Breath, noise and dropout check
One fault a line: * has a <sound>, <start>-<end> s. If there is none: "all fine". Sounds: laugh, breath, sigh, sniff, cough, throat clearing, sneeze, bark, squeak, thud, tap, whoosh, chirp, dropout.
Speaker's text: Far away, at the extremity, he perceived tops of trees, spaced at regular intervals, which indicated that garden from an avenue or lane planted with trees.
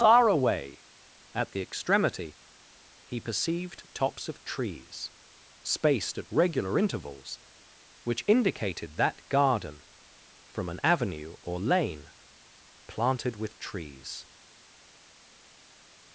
all fine